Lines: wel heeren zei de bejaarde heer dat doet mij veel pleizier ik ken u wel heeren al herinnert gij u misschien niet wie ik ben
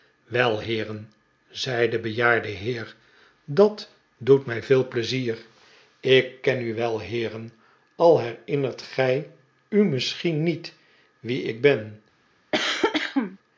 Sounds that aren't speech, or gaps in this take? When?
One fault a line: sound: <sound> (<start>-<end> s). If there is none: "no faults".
sound: cough (12.5-13.4 s)